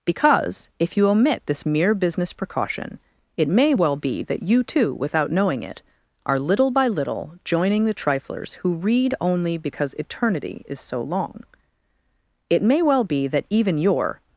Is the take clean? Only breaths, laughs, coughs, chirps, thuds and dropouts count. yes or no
yes